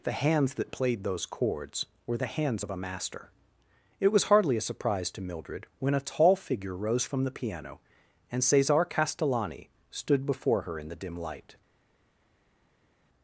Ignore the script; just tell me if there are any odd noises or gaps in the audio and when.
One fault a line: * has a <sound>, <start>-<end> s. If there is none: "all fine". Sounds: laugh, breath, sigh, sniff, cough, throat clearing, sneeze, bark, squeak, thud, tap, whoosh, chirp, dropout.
all fine